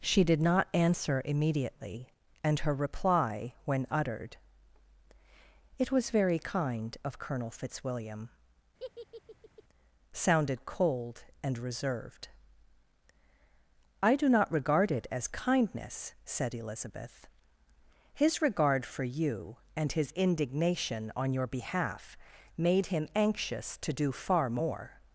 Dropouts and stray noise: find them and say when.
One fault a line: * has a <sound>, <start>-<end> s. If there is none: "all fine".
* has a laugh, 8.8-9.6 s